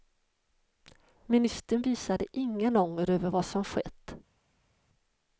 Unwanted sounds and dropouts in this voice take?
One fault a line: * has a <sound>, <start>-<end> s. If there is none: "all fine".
all fine